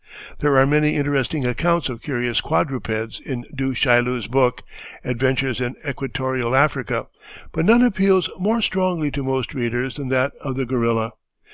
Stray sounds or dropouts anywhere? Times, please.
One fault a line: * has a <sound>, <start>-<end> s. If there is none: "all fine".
all fine